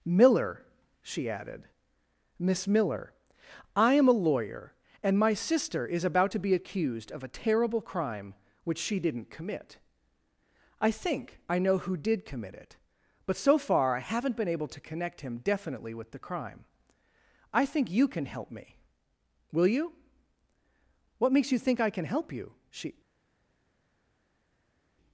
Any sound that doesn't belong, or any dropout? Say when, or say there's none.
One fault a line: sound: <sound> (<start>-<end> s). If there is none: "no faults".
no faults